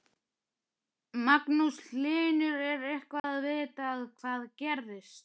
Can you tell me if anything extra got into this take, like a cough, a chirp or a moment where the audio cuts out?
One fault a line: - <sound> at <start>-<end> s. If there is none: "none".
- dropout at 3.2-3.2 s